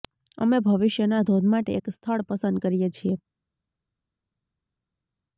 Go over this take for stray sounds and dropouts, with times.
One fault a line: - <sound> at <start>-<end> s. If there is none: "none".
none